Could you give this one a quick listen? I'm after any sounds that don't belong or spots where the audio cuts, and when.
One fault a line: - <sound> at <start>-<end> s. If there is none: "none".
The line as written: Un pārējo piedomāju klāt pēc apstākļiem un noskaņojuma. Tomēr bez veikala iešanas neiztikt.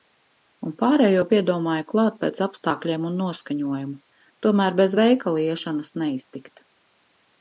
none